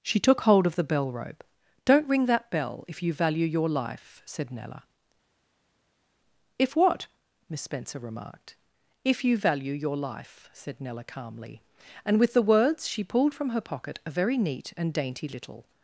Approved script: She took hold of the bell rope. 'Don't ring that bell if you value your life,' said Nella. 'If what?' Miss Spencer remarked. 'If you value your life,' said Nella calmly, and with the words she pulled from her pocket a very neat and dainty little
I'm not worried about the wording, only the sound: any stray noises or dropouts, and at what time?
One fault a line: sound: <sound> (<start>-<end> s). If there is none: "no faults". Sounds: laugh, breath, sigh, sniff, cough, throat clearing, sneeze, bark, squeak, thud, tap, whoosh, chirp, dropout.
no faults